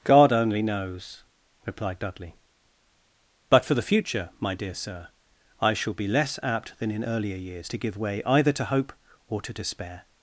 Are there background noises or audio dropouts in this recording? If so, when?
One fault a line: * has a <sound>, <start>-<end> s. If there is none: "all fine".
all fine